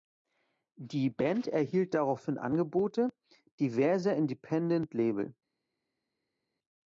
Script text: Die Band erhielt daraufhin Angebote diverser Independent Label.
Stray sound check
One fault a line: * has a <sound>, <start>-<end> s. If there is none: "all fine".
all fine